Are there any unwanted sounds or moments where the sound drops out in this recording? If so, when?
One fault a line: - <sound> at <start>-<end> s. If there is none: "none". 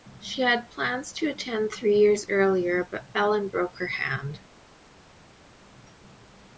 none